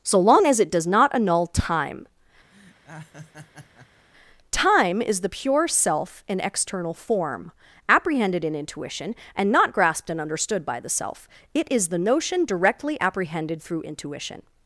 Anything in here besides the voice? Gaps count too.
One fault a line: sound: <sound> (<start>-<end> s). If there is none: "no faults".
sound: laugh (2.5-4.1 s)